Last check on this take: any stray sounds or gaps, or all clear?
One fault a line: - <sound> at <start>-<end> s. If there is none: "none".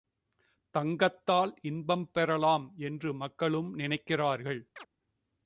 - chirp at 4.8-4.9 s